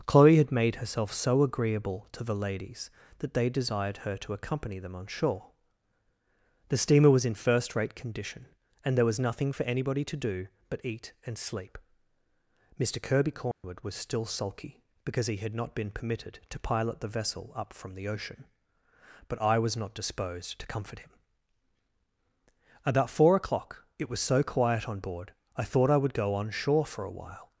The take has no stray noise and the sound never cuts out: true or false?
false